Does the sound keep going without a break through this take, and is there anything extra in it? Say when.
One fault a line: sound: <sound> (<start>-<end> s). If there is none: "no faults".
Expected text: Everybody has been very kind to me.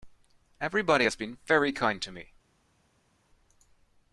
no faults